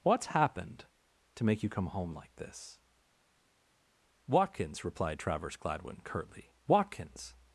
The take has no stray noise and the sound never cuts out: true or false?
true